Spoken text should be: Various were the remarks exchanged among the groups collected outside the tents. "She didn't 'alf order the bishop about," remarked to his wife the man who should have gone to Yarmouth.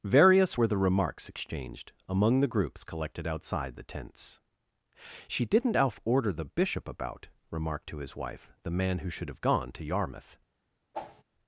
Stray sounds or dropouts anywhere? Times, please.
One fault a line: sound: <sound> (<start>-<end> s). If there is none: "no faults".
sound: whoosh (10.9-11.2 s)